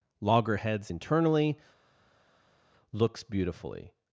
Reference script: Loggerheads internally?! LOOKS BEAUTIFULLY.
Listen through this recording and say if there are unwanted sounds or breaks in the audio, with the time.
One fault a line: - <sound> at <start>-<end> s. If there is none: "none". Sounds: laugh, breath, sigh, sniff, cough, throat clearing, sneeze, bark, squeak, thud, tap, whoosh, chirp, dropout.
none